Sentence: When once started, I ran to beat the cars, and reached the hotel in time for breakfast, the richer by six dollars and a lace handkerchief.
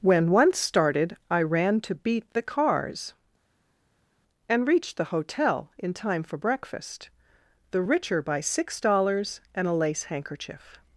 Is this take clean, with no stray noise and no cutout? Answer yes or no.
yes